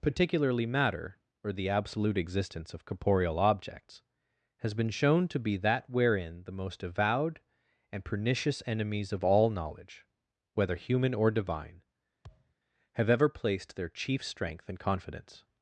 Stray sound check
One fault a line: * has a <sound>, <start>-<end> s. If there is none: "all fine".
* has a thud, 12.2-12.5 s